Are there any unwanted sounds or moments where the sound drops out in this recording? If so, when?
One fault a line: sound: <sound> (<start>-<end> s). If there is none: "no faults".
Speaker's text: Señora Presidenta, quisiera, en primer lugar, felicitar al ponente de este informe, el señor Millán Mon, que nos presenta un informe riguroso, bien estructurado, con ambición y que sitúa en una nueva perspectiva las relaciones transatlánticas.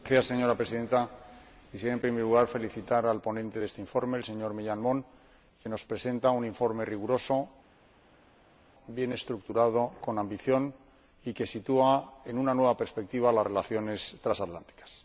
no faults